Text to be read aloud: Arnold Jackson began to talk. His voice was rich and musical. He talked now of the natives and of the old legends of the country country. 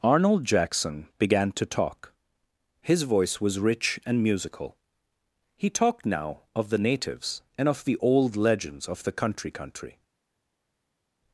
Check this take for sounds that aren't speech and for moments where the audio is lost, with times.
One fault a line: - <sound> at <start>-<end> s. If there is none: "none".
none